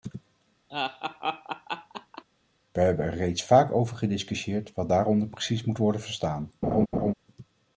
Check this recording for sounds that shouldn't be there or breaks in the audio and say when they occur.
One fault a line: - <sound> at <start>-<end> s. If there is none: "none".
- laugh at 0.7-2.2 s
- laugh at 6.6-7.1 s